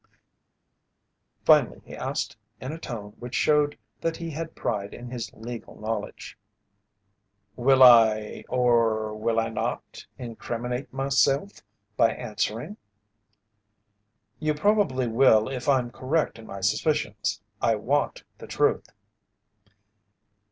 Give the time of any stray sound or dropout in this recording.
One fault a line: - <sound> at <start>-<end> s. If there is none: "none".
none